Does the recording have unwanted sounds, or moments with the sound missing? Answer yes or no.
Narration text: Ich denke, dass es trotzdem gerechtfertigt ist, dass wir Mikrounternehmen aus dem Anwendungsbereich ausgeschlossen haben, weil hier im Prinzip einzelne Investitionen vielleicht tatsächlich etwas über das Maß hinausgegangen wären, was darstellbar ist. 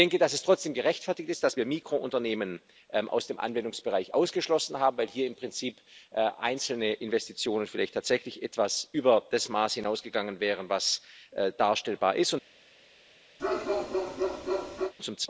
yes